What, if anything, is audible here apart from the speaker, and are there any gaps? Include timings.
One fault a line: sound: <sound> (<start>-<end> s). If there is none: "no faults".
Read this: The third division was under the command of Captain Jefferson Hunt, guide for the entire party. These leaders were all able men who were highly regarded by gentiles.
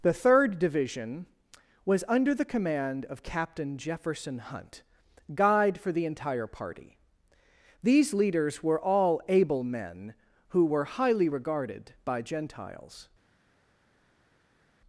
no faults